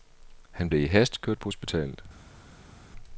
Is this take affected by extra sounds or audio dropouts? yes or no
no